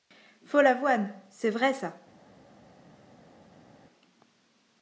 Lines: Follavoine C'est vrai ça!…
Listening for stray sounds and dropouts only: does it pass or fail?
pass